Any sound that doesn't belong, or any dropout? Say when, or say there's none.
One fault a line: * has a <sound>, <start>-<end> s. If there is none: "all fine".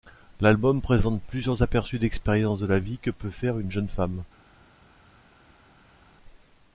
all fine